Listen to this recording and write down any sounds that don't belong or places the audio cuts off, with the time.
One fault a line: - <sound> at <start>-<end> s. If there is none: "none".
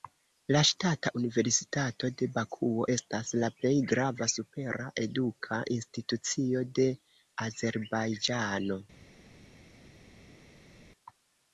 none